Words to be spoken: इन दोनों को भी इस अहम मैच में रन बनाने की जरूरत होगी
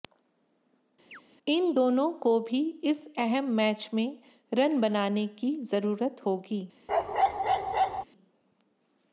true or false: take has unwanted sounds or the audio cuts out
true